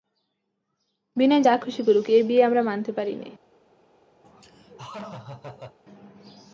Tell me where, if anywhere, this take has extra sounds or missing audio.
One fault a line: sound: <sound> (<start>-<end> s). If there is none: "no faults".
sound: laugh (4.2-5.8 s)